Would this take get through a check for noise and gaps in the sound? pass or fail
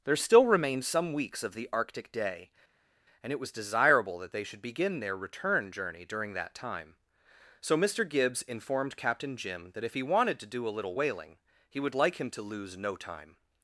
pass